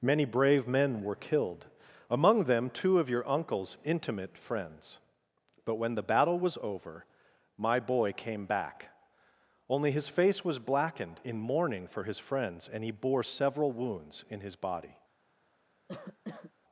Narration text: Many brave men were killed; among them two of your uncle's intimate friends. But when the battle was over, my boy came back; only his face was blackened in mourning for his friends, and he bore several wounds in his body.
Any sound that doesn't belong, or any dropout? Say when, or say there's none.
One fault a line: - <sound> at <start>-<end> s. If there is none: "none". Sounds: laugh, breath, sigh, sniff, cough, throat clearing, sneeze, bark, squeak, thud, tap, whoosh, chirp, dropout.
- cough at 15.9-16.5 s